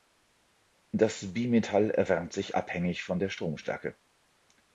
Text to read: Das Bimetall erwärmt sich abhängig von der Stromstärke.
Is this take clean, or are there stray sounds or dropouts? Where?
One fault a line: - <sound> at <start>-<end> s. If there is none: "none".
none